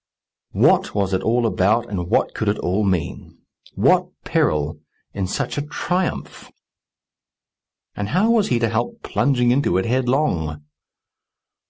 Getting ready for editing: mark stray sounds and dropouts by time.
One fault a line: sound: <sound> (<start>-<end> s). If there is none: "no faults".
no faults